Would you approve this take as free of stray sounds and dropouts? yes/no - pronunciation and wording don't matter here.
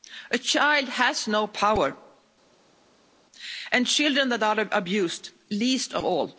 yes